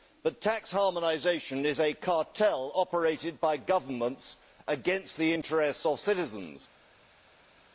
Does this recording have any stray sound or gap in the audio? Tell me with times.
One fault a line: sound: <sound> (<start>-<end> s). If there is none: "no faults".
no faults